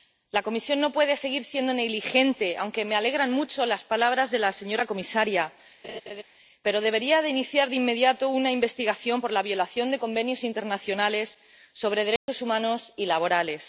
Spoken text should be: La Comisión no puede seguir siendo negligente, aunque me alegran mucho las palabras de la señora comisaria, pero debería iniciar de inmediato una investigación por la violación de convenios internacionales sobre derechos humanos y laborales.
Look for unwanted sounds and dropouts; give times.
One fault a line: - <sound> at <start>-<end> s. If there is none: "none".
- laugh at 5.8-6.2 s
- dropout at 12.2-12.3 s